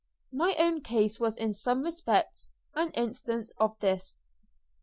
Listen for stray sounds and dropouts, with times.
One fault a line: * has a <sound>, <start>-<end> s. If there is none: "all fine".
all fine